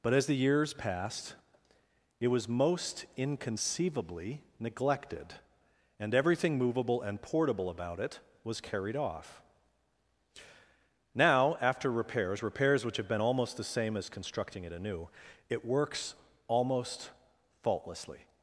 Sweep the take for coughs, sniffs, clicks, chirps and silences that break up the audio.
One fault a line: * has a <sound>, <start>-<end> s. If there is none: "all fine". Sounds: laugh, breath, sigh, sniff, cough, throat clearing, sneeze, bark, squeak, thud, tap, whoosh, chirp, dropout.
all fine